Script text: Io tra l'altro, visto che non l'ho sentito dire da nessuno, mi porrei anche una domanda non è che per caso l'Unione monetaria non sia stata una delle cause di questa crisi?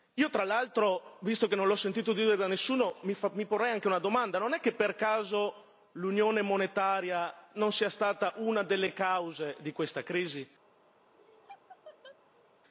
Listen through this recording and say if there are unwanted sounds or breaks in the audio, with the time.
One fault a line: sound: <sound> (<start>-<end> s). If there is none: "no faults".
sound: laugh (11.1-12.5 s)